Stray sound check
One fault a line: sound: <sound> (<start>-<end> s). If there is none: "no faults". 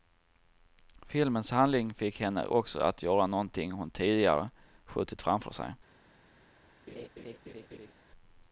sound: laugh (6.9-7.9 s)